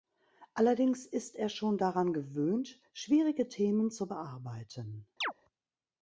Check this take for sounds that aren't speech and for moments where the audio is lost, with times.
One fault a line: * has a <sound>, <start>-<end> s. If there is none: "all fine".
* has a chirp, 5.2-5.3 s